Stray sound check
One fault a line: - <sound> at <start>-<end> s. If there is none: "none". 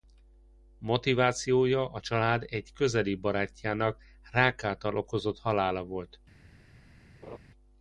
- laugh at 7.2-7.4 s